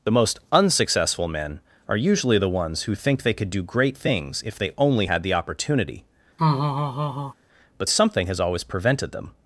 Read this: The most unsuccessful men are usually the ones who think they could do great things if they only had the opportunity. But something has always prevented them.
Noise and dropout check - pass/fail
fail